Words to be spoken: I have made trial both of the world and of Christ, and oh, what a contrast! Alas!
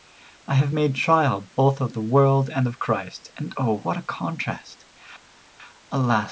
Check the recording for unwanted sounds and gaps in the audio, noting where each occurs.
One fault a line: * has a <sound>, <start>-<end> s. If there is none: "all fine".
all fine